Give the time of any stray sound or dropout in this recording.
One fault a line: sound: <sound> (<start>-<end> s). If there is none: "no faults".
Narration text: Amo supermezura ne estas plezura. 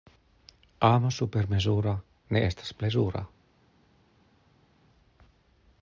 no faults